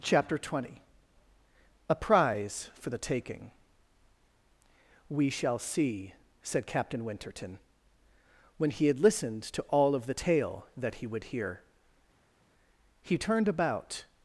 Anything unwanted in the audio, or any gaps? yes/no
no